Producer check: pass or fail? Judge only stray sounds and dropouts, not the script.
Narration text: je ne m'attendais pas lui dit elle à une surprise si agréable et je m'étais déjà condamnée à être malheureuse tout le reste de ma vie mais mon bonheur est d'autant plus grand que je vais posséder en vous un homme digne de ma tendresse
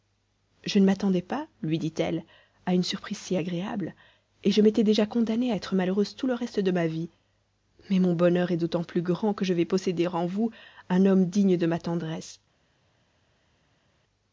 pass